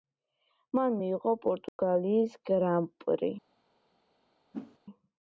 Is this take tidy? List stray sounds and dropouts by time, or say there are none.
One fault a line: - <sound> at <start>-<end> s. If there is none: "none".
- dropout at 1.7-1.8 s
- whoosh at 4.5-4.8 s